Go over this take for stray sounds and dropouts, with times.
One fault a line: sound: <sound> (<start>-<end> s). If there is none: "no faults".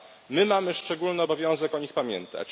no faults